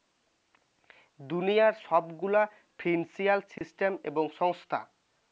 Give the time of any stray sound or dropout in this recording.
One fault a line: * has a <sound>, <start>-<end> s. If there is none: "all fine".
* has a dropout, 3.6-3.6 s